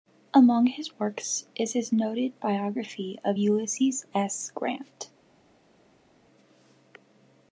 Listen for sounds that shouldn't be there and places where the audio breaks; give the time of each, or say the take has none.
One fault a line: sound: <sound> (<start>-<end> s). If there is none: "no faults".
no faults